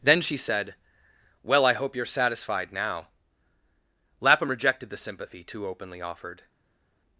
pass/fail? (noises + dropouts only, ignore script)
pass